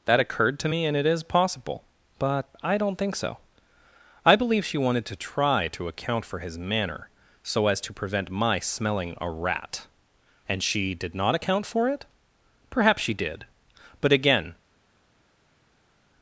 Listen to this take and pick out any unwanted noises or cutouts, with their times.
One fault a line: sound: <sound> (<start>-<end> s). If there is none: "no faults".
no faults